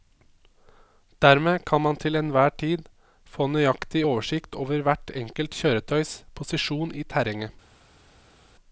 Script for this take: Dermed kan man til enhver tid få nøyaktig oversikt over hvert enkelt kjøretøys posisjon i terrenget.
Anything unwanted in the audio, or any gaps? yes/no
no